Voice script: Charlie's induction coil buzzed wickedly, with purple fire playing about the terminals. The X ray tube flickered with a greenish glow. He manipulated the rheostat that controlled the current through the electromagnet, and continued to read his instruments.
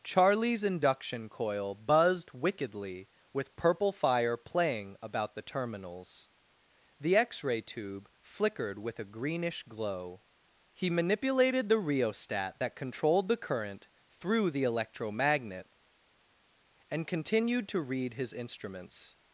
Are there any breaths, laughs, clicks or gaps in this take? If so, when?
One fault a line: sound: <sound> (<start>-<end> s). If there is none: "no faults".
no faults